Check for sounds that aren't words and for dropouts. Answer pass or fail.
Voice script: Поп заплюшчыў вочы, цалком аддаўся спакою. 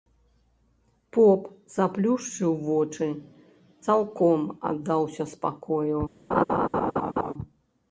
fail